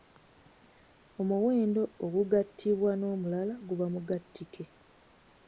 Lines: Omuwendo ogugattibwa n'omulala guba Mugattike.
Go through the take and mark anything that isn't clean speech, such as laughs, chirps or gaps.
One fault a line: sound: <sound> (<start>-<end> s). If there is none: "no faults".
no faults